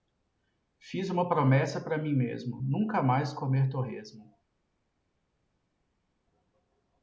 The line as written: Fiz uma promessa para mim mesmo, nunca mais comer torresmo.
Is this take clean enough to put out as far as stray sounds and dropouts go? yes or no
yes